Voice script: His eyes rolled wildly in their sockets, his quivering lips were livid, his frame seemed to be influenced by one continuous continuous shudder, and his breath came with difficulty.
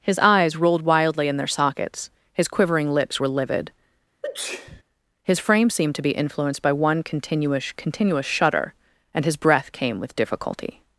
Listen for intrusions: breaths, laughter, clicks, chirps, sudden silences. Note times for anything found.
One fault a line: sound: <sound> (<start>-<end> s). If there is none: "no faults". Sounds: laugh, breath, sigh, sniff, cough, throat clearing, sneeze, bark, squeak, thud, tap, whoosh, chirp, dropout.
sound: sneeze (4.2-4.8 s)